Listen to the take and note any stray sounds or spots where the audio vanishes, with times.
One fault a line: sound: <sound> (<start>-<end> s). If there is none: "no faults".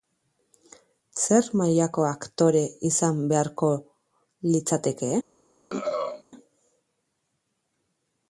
sound: throat clearing (5.7-6.2 s)